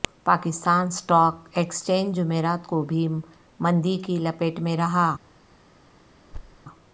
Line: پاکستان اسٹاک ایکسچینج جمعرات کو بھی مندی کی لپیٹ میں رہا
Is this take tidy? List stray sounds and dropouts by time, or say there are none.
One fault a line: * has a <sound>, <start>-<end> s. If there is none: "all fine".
* has a thud, 6.3-6.6 s